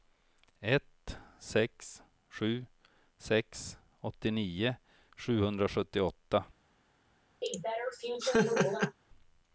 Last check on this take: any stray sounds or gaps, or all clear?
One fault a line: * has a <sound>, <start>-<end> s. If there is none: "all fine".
* has a laugh, 7.4-9.0 s